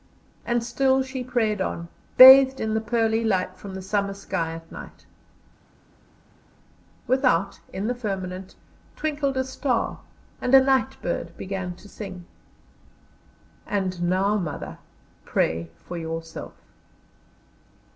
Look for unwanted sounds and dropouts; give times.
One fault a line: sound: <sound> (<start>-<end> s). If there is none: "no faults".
no faults